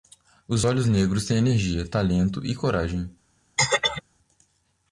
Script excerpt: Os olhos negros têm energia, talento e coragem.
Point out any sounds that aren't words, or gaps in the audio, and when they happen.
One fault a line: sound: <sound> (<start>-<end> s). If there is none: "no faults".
sound: throat clearing (3.6-4.0 s)